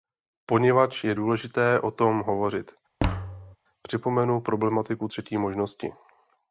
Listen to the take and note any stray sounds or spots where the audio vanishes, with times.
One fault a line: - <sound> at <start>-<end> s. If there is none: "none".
- thud at 3.0-3.6 s